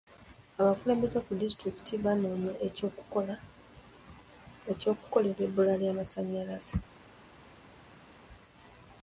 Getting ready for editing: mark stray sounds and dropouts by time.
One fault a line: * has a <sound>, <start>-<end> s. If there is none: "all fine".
all fine